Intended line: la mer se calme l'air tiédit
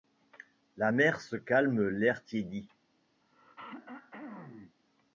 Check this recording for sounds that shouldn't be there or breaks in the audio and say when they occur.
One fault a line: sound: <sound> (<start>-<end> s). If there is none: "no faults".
sound: throat clearing (3.2-4.8 s)